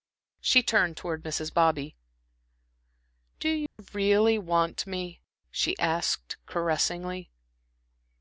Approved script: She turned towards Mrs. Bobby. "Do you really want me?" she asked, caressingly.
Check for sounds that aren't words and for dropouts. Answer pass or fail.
fail